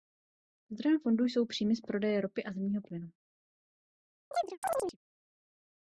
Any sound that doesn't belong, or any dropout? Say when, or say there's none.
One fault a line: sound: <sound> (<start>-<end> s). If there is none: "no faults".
sound: chirp (4.3-5.0 s)